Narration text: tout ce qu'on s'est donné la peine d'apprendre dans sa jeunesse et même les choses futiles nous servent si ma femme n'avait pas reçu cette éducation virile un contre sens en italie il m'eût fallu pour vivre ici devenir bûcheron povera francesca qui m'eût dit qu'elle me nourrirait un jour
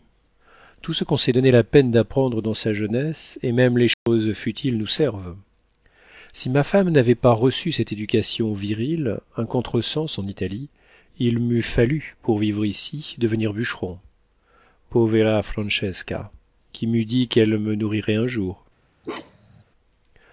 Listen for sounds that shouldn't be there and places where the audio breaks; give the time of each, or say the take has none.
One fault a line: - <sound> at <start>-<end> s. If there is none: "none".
- dropout at 3.9-4.1 s
- bark at 19.0-19.6 s